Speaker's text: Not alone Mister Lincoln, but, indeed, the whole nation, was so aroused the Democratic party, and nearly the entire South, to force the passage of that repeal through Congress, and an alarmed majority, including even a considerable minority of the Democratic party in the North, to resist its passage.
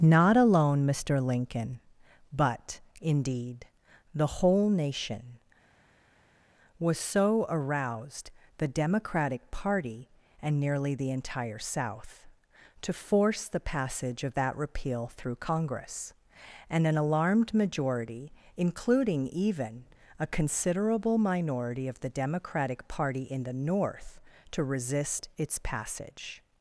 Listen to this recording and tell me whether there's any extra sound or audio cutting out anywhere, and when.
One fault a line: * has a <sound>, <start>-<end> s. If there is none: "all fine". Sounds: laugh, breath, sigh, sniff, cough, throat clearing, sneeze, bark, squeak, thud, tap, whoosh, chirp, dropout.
all fine